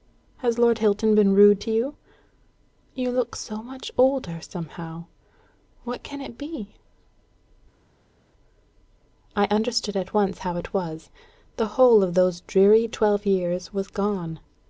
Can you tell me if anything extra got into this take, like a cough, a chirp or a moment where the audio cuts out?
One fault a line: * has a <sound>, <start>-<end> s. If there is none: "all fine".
all fine